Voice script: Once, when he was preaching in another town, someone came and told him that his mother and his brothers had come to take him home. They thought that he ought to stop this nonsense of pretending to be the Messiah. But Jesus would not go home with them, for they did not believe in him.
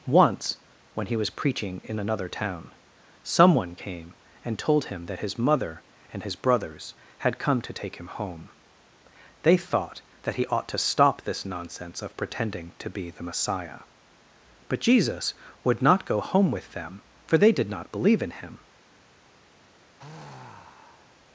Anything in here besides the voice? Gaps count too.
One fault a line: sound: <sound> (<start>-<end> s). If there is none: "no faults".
sound: sigh (20.0-21.2 s)